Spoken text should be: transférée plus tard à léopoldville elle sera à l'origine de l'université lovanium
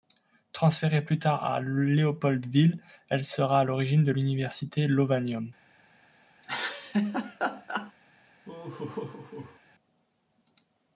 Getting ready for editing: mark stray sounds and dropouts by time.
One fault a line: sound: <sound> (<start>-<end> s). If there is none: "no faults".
sound: laugh (6.4-7.9 s)
sound: laugh (8.4-9.6 s)